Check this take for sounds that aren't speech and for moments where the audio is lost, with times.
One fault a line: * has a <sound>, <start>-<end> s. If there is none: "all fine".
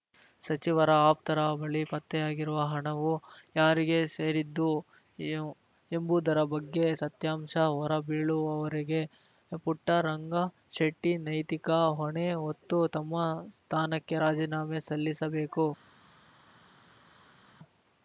all fine